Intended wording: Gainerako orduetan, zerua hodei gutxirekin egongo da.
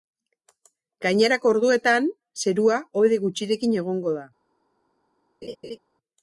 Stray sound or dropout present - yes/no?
yes